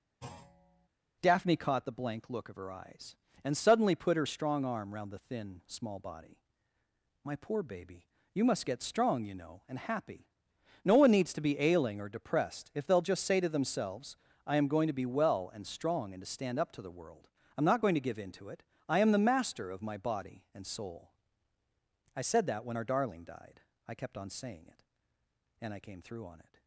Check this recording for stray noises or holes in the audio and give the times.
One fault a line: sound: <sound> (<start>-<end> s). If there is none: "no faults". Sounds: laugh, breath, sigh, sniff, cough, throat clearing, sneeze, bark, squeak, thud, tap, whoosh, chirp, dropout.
sound: thud (0.2-0.9 s)